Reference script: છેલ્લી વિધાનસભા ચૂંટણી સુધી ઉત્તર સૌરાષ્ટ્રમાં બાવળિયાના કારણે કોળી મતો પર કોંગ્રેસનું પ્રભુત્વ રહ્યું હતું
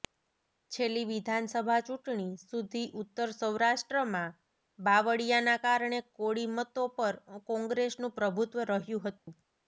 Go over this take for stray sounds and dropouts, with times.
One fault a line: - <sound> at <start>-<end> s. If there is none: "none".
- dropout at 9.2-9.3 s